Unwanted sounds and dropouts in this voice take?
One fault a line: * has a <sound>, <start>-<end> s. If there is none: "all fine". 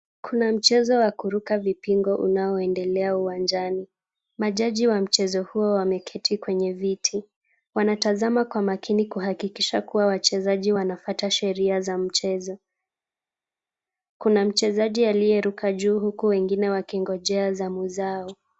all fine